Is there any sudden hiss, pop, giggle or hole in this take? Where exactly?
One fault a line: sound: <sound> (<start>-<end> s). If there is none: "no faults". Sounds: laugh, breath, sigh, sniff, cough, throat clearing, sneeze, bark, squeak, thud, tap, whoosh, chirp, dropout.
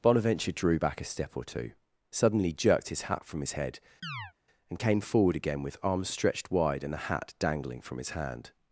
sound: chirp (4.0-4.3 s)